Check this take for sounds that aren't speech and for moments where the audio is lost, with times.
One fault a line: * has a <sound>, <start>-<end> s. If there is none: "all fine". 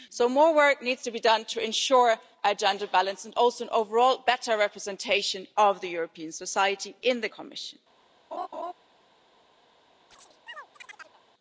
* has a laugh, 8.3-8.7 s
* has a chirp, 10.1-11.2 s